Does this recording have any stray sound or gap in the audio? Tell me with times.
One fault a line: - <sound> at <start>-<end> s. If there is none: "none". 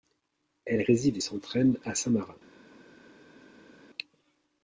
none